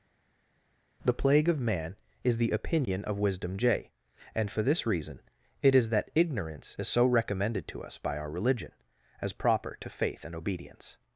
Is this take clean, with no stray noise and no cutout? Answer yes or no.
yes